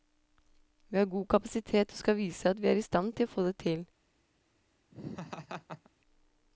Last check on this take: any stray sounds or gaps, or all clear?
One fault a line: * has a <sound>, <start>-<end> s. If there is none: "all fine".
* has a laugh, 4.9-5.9 s